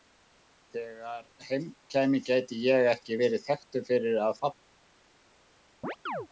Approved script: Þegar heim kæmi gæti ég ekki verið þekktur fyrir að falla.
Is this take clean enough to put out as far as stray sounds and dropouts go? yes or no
no